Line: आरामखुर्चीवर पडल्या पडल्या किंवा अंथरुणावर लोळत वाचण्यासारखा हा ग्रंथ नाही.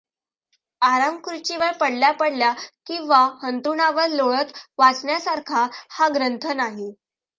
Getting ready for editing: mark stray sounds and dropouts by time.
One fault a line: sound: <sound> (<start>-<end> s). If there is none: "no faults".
no faults